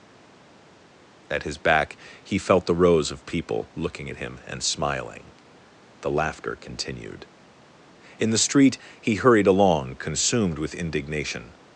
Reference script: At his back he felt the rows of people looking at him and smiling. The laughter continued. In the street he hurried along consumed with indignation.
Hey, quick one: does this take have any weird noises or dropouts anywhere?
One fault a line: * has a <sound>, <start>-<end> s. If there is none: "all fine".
all fine